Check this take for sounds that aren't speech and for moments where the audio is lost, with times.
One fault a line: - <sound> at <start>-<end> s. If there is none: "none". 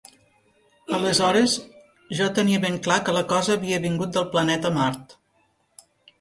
none